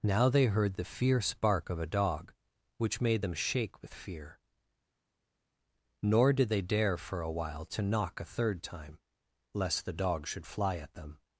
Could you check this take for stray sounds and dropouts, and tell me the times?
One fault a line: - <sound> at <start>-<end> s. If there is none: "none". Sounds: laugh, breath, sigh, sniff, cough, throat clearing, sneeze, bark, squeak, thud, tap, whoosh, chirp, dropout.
none